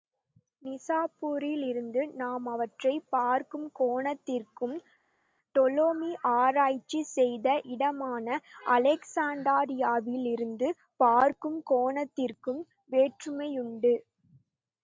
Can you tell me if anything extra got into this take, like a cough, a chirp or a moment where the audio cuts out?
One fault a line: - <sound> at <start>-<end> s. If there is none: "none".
none